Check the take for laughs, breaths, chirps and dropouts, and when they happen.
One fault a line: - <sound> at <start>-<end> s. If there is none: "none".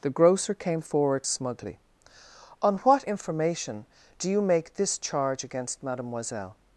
none